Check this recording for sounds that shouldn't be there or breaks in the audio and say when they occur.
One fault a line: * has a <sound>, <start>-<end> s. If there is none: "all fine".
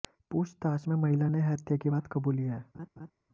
* has a laugh, 2.7-3.1 s